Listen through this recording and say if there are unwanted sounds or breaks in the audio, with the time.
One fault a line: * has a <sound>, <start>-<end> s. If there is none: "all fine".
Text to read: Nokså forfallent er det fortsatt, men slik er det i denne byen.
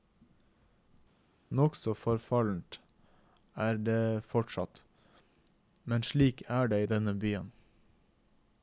all fine